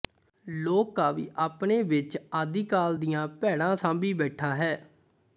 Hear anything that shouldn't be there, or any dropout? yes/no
no